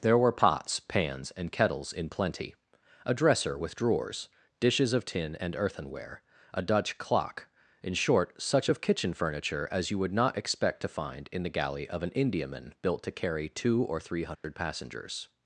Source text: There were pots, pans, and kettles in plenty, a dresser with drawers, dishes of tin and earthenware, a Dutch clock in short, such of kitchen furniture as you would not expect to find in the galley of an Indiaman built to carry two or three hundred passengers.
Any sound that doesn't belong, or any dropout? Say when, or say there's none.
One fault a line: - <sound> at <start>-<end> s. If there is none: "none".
- dropout at 14.3-14.4 s